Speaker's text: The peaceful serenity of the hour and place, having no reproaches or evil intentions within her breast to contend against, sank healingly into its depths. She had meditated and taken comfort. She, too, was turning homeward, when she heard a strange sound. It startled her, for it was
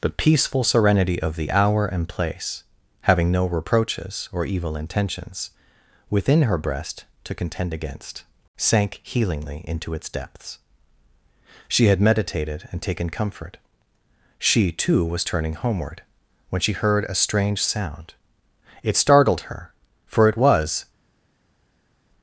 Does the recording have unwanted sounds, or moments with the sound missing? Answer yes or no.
no